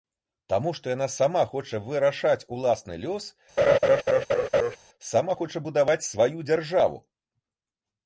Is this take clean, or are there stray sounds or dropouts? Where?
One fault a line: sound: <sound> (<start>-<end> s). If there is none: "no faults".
sound: laugh (3.6-4.8 s)